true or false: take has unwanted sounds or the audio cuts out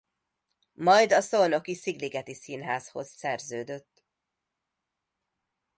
false